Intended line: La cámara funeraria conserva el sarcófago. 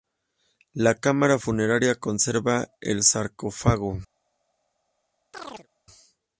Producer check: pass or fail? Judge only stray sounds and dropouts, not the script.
fail